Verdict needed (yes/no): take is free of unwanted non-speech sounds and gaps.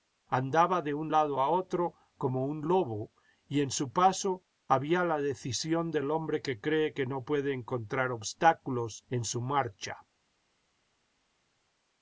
yes